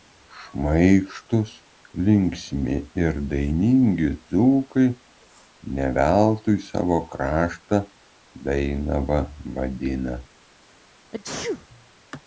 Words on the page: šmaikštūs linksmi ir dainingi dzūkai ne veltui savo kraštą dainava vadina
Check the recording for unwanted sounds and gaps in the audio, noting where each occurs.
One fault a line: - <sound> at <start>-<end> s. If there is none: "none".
- sneeze at 11.1-11.7 s